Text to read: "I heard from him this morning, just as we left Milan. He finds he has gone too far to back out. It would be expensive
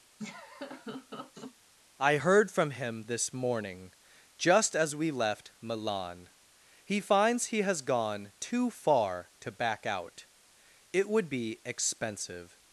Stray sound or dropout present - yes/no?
yes